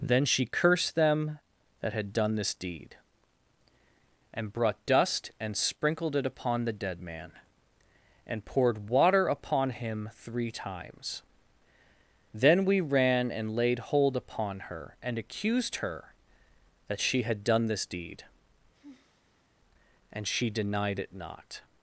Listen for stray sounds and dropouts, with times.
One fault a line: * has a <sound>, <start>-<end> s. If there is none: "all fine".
* has a sigh, 18.7-19.5 s